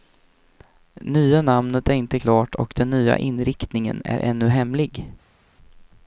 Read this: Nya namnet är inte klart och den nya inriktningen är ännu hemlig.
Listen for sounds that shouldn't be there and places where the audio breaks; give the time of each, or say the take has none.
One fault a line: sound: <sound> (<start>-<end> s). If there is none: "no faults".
no faults